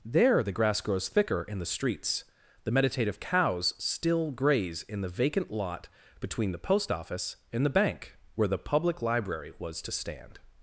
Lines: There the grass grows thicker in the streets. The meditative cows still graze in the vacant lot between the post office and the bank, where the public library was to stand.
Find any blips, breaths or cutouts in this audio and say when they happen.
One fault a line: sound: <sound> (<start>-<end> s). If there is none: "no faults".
no faults